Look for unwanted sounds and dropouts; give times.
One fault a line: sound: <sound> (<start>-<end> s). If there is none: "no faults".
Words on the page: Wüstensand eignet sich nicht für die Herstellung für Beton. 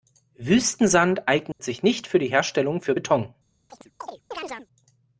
sound: dropout (1.5-1.6 s)
sound: chirp (3.7-4.7 s)